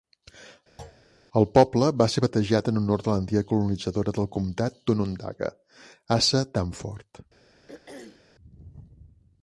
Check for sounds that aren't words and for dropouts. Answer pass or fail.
fail